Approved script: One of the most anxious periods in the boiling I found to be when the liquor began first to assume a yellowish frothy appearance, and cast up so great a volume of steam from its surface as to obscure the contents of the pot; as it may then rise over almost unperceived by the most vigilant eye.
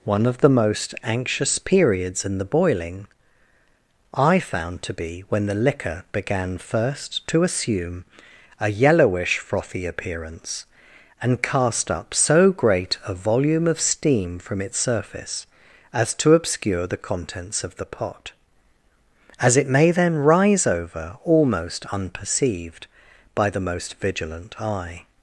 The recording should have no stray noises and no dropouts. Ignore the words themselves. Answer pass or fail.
pass